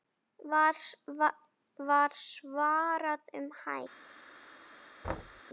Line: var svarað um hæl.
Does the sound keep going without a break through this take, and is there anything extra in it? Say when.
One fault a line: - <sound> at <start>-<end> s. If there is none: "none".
- thud at 5.0-5.4 s